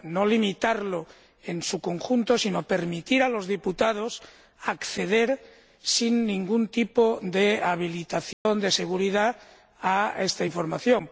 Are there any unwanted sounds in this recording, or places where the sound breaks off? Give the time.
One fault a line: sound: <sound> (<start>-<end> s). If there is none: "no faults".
sound: dropout (8.3-8.5 s)